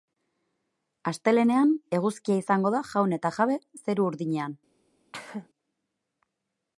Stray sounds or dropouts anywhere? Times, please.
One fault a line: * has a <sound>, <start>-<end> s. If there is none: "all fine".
* has a cough, 5.1-5.5 s